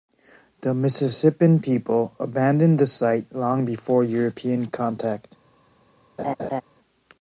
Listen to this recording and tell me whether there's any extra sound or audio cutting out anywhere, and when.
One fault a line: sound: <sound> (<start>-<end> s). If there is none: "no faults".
sound: laugh (6.2-6.6 s)